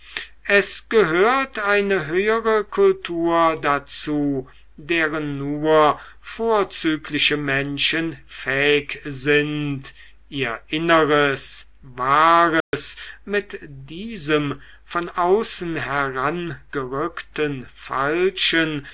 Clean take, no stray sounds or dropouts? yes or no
no